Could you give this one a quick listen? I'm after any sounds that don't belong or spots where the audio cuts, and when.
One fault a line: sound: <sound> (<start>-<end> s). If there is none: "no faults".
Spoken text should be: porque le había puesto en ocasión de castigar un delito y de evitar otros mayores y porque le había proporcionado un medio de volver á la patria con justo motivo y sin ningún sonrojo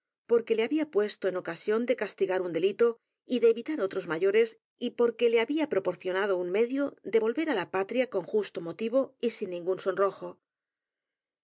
no faults